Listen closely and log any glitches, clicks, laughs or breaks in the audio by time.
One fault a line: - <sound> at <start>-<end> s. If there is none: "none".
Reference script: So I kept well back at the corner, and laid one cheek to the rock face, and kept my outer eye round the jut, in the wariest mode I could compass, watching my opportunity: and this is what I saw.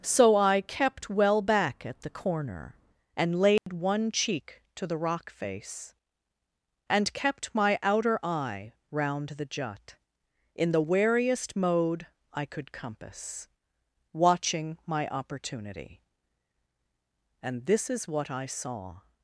- dropout at 3.6-3.7 s